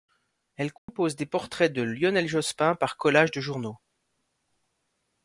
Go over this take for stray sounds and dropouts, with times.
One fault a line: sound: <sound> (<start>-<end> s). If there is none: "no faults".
sound: dropout (0.8-0.9 s)